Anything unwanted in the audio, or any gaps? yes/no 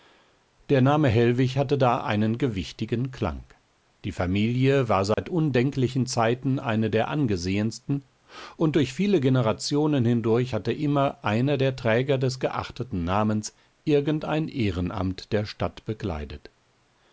yes